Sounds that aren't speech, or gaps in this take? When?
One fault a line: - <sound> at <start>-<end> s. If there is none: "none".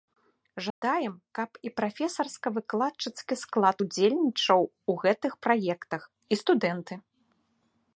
- dropout at 0.7-0.8 s